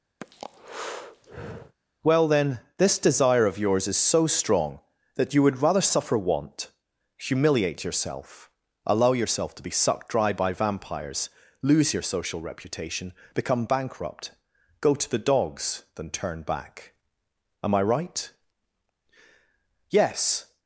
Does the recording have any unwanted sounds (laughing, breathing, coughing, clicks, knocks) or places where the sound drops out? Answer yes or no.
yes